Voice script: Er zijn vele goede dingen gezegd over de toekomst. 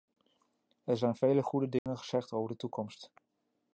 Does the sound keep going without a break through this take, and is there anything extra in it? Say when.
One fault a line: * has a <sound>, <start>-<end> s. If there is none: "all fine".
* has a dropout, 1.8-1.9 s